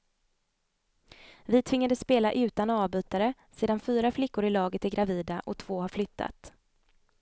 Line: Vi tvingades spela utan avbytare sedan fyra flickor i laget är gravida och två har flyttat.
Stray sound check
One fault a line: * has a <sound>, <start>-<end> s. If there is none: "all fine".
all fine